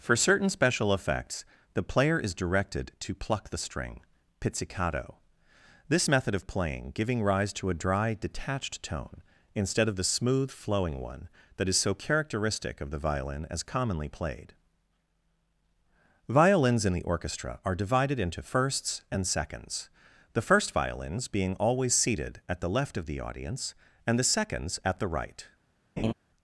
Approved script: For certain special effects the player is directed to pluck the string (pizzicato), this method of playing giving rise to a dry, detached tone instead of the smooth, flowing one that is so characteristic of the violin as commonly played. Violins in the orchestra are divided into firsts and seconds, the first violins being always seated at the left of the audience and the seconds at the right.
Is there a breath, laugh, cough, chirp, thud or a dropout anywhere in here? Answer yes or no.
yes